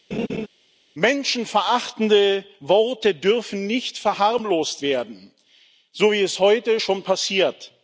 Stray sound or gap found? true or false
true